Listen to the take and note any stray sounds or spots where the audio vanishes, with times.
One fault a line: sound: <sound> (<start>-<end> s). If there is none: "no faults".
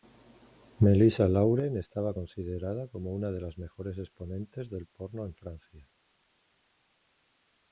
no faults